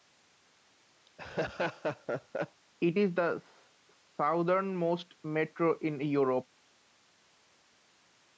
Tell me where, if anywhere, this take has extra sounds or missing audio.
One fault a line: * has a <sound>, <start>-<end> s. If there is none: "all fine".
* has a laugh, 1.1-2.6 s